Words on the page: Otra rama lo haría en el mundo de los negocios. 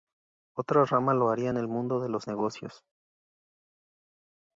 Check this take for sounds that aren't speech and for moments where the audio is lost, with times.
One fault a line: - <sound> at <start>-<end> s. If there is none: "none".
none